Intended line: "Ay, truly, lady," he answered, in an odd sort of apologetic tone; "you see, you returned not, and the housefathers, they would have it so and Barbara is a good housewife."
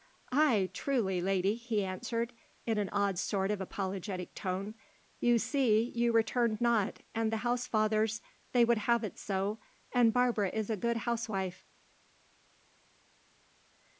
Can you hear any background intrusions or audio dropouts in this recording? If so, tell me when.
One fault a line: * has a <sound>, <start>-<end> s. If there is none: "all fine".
all fine